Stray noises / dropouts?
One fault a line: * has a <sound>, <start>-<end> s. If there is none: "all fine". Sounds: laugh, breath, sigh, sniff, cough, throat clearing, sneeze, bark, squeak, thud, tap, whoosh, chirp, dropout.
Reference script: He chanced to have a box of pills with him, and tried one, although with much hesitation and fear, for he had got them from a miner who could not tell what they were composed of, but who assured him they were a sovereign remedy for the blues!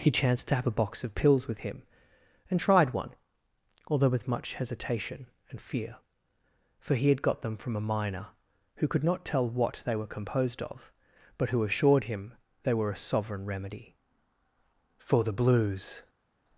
all fine